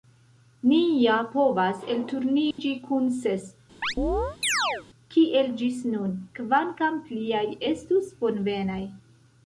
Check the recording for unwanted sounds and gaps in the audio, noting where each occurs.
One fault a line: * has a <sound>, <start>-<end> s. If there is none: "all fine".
* has a dropout, 2.5-2.6 s
* has a chirp, 3.8-4.8 s